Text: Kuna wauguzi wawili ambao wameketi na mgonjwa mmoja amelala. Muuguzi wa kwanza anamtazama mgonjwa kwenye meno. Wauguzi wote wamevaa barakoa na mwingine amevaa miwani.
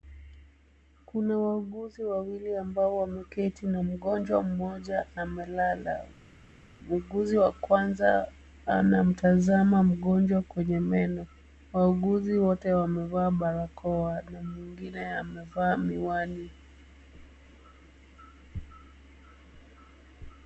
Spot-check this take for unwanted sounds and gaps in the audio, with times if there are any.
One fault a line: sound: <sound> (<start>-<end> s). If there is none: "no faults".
no faults